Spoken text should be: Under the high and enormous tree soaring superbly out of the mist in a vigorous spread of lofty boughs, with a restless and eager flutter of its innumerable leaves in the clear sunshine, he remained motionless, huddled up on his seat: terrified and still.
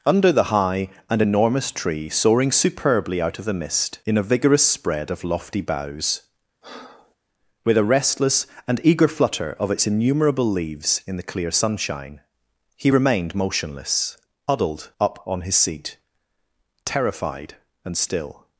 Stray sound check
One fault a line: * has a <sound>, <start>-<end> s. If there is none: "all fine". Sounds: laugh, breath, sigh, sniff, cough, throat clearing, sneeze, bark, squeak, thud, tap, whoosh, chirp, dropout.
* has a breath, 6.6-7.2 s